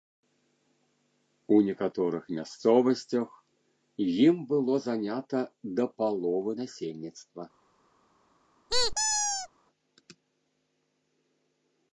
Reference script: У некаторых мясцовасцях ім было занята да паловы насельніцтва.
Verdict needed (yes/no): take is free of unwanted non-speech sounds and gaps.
no